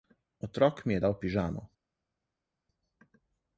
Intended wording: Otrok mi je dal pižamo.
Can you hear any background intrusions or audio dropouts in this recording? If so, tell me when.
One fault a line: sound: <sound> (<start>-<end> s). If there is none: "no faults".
no faults